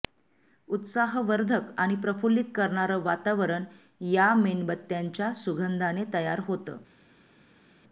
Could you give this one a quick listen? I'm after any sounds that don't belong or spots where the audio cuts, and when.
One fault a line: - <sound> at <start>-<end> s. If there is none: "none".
none